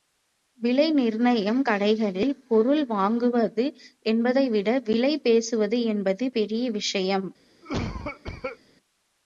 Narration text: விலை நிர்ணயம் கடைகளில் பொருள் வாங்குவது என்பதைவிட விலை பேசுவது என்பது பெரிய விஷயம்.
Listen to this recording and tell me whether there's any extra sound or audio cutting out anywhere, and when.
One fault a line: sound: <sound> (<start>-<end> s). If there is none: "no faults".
sound: cough (7.6-8.6 s)